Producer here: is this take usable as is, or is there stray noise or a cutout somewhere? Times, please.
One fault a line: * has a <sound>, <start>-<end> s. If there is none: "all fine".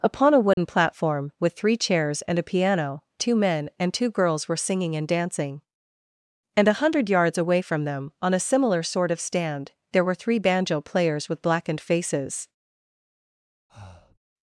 * has a dropout, 0.5-0.6 s
* has a breath, 13.7-14.2 s